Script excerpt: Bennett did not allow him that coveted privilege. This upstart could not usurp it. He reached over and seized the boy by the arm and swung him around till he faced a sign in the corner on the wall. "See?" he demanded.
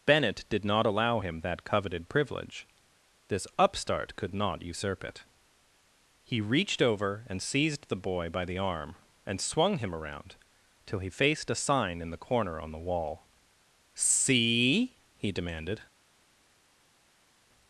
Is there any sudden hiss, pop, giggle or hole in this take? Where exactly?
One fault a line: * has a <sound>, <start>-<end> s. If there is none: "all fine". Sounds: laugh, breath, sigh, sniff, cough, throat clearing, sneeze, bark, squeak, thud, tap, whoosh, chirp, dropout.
all fine